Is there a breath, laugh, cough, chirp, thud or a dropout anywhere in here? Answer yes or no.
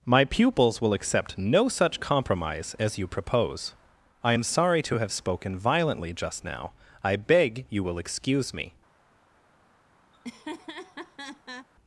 yes